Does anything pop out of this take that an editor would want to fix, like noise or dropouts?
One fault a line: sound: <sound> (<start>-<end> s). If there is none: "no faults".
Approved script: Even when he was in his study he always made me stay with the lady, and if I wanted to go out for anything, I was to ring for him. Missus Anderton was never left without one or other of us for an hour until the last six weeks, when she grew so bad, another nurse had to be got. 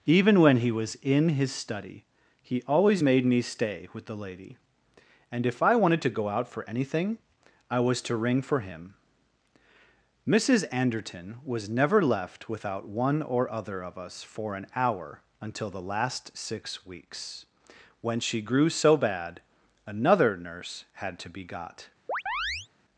sound: chirp (22.1-22.7 s)